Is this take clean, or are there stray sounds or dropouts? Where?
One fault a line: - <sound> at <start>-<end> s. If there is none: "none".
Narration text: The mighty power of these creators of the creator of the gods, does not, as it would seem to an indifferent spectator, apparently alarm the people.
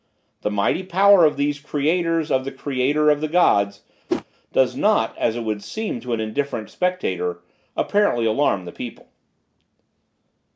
- whoosh at 4.1-4.2 s